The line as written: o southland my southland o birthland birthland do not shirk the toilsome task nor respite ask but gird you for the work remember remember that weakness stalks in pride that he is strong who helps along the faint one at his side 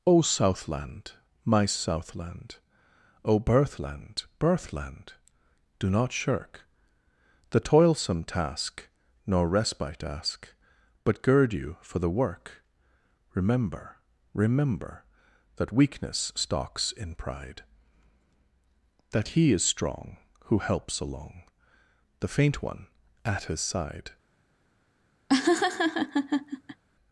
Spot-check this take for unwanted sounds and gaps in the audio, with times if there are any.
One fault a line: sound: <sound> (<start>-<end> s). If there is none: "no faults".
sound: laugh (25.3-26.8 s)